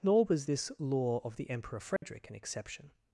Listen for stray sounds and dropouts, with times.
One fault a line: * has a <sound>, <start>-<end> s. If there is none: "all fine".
* has a dropout, 2.0-2.0 s